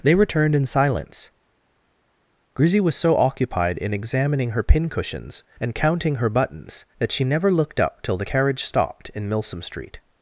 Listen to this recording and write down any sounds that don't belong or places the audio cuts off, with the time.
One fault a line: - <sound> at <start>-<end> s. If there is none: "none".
none